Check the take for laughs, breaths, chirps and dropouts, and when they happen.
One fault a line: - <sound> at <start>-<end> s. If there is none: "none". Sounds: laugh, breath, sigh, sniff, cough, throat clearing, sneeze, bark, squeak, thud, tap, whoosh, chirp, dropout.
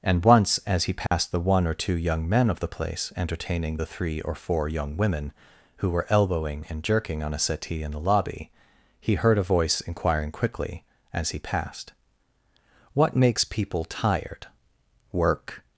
- dropout at 1.1-1.1 s